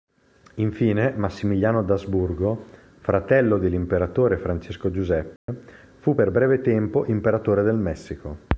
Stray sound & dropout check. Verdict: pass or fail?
fail